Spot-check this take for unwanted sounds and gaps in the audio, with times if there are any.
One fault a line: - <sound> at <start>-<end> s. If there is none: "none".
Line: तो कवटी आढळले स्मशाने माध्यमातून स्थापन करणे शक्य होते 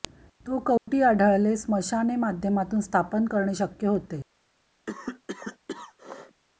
- dropout at 0.8-0.9 s
- cough at 4.9-6.4 s